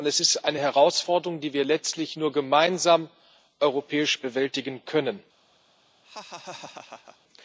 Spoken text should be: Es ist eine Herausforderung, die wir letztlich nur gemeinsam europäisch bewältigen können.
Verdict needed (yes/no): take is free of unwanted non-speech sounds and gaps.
no